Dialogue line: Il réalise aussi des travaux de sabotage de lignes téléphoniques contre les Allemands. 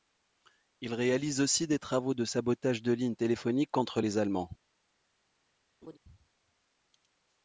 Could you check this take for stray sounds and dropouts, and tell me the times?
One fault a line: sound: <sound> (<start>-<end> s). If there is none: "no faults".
sound: laugh (5.8-6.0 s)